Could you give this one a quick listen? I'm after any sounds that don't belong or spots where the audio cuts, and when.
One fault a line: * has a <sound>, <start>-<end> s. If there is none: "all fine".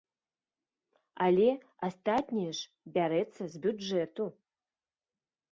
all fine